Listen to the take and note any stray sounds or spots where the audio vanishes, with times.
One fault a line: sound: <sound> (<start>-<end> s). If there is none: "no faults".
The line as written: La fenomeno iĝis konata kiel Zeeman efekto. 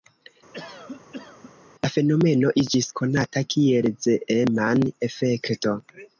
sound: cough (0.5-1.5 s)